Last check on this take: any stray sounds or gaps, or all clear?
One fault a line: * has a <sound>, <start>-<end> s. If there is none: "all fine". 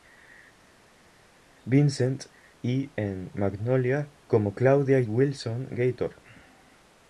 all fine